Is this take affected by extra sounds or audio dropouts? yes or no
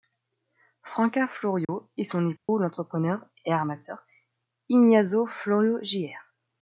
yes